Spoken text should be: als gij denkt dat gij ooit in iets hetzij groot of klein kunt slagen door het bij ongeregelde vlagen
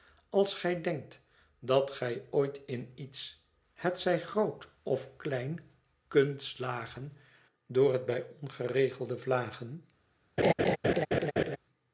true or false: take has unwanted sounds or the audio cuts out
true